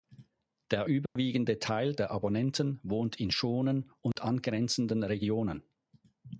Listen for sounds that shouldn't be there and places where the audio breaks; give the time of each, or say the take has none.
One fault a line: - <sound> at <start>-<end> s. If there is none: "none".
- dropout at 1.1-1.2 s
- dropout at 4.1-4.2 s